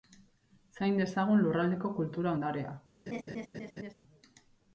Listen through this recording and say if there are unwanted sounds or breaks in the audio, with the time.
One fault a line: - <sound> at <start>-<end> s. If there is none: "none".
- laugh at 3.1-3.9 s